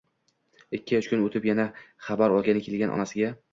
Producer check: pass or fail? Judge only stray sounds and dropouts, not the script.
pass